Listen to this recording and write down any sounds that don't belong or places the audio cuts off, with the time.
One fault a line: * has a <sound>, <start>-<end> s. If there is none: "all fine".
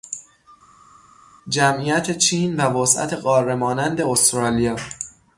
all fine